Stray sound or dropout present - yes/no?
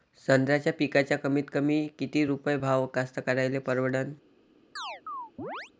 yes